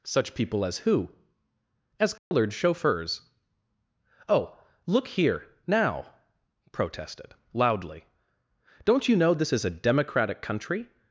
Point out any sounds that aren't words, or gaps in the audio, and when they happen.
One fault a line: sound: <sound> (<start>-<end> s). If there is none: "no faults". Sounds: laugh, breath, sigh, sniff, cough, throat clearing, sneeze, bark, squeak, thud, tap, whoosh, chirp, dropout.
sound: dropout (2.2-2.3 s)